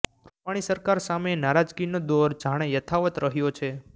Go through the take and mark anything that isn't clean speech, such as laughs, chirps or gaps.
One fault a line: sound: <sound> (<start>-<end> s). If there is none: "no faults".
no faults